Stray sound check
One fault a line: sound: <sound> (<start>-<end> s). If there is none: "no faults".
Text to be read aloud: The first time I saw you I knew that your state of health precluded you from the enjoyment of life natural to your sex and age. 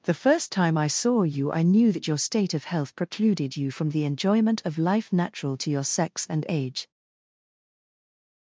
no faults